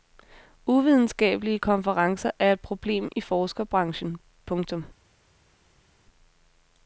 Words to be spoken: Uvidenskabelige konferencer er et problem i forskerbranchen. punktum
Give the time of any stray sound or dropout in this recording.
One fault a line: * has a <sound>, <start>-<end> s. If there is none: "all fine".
all fine